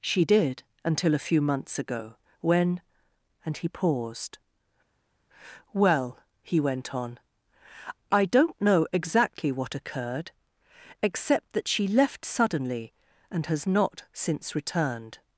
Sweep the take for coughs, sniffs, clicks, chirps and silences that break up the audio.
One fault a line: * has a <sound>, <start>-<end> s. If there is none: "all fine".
all fine